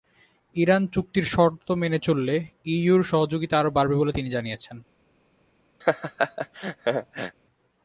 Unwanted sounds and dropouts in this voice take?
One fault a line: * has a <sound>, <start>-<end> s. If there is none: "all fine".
* has a laugh, 5.8-7.4 s